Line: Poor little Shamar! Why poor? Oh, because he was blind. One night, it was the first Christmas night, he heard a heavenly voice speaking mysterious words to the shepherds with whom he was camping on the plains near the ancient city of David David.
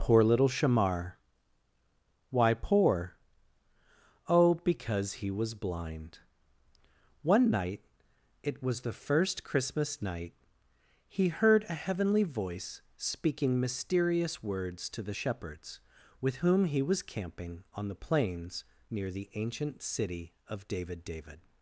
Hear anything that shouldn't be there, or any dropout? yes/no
no